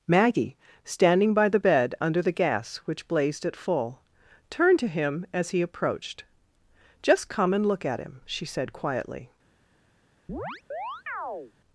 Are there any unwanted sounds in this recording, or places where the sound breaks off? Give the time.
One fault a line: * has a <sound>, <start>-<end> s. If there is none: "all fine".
* has a chirp, 10.3-11.5 s